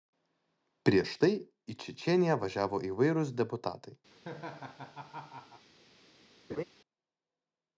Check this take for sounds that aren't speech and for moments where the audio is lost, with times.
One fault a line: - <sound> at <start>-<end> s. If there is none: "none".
- laugh at 4.1-5.7 s
- laugh at 6.5-6.6 s